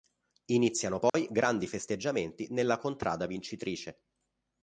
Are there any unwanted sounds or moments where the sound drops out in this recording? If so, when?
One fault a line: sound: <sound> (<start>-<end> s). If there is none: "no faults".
sound: dropout (1.1-1.1 s)